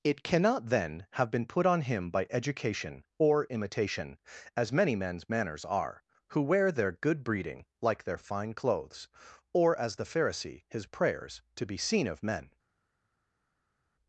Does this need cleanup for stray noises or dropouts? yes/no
no